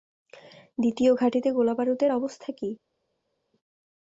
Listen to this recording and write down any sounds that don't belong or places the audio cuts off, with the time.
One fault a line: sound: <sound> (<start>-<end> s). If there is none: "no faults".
no faults